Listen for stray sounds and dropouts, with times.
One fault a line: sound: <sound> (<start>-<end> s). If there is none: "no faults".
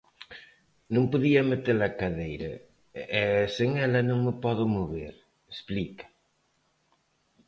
no faults